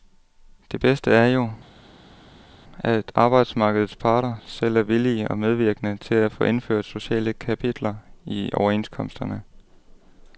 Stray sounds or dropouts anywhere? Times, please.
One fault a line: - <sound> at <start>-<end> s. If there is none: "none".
none